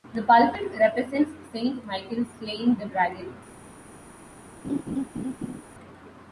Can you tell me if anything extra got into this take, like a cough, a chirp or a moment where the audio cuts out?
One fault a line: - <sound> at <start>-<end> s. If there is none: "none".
- laugh at 4.6-5.6 s